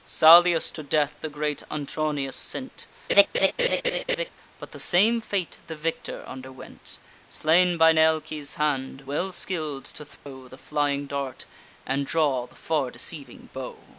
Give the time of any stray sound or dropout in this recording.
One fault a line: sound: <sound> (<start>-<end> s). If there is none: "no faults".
sound: laugh (3.1-4.3 s)
sound: dropout (10.2-10.3 s)